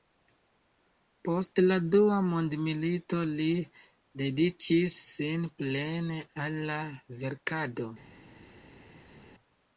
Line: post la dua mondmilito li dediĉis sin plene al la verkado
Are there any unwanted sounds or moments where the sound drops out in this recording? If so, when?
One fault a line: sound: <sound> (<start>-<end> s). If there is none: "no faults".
no faults